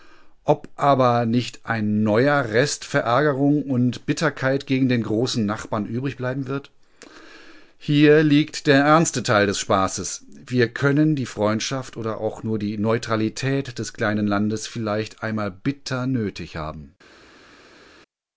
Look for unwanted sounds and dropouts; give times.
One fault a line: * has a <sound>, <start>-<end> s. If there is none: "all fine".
all fine